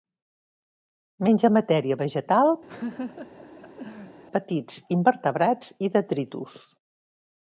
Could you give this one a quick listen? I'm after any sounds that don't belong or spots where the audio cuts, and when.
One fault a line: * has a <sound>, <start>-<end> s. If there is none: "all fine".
* has a laugh, 2.7-4.2 s